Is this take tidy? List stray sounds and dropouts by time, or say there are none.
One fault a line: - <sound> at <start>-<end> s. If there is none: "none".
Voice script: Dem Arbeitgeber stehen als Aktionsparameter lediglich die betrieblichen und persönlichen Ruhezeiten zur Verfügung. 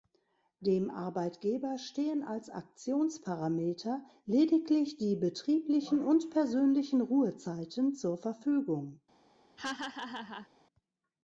- laugh at 9.6-10.5 s